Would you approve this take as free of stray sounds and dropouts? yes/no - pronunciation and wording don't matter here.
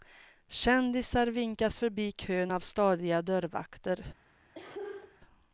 no